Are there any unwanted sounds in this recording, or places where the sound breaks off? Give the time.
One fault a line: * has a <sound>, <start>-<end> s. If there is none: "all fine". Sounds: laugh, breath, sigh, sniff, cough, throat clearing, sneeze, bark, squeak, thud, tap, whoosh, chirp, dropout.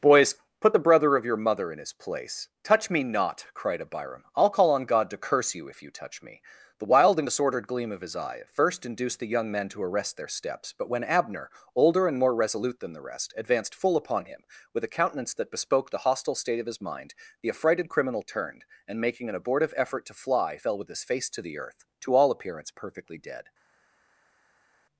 all fine